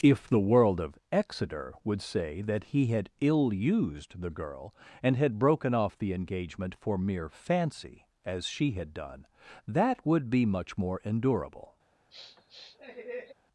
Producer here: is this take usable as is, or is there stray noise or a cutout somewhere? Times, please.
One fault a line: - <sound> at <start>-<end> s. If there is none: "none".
- sniff at 12.1-13.3 s